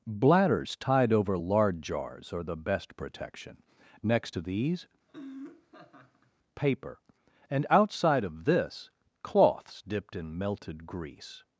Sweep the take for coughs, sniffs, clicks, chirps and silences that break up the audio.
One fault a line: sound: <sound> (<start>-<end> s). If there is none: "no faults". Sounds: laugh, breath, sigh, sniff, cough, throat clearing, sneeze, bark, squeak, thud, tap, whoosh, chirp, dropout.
sound: laugh (5.1-6.3 s)